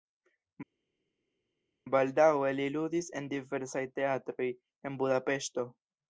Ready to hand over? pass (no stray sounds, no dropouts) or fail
pass